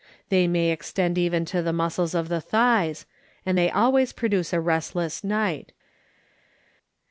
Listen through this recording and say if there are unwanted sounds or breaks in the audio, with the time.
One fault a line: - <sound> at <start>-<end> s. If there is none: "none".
none